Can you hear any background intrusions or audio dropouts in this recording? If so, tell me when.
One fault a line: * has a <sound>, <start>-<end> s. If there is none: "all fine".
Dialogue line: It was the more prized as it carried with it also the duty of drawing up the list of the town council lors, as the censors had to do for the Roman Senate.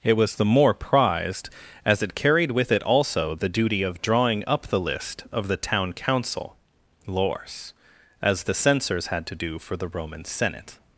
all fine